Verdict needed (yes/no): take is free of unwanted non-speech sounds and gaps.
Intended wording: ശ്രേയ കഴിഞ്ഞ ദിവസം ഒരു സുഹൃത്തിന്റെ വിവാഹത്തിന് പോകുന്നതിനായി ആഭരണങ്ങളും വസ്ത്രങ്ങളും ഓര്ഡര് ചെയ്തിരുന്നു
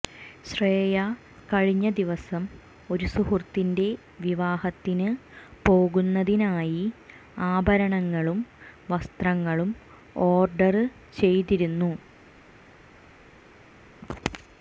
yes